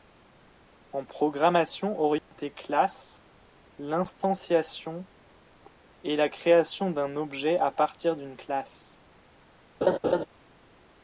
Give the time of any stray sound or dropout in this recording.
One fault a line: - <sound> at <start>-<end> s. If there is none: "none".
- dropout at 2.2-2.3 s
- laugh at 9.8-10.3 s